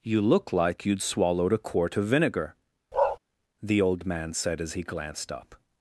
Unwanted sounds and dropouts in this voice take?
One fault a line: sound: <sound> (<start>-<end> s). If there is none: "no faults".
sound: bark (2.9-3.2 s)